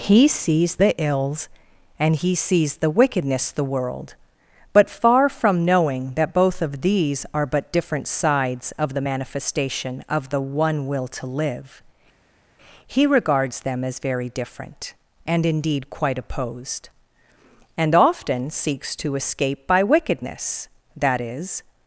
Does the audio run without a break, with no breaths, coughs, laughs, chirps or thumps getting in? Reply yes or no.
yes